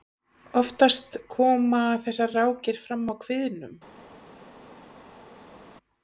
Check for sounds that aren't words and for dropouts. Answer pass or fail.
pass